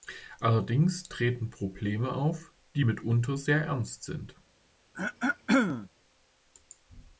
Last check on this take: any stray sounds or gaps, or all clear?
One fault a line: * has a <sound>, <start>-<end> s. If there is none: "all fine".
* has a throat clearing, 4.9-5.9 s